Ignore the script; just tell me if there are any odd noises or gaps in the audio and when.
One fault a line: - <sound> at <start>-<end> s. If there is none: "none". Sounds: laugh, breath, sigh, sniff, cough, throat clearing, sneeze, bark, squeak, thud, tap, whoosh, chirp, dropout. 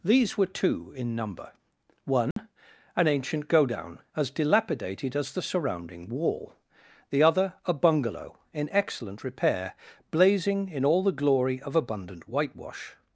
- dropout at 2.3-2.4 s